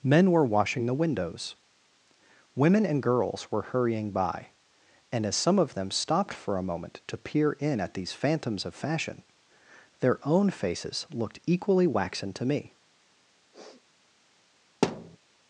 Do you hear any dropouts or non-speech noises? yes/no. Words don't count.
yes